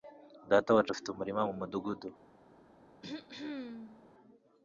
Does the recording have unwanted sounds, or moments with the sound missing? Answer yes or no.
yes